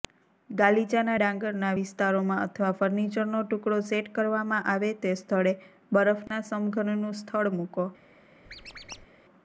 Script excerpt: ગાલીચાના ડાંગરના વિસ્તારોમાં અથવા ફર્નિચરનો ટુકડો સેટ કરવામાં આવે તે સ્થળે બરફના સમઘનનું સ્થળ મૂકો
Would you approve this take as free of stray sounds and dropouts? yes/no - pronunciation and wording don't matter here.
no